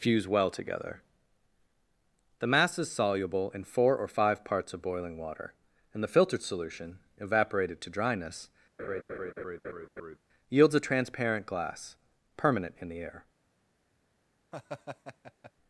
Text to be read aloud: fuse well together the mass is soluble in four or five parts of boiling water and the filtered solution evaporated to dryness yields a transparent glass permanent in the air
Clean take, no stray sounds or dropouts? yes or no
no